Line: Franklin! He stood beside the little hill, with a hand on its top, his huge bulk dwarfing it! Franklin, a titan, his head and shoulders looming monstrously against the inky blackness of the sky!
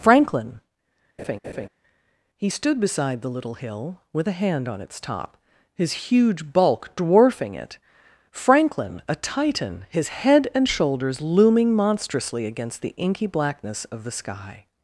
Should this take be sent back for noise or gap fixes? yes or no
yes